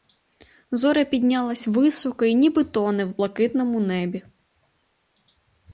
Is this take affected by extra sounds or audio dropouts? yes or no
no